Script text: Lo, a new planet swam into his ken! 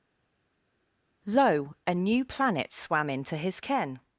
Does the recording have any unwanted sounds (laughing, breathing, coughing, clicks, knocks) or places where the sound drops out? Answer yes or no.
no